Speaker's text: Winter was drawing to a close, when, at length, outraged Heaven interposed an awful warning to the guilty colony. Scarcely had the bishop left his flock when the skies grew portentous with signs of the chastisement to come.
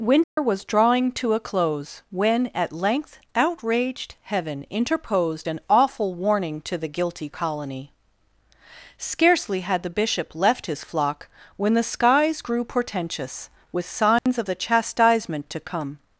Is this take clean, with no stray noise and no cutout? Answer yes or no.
no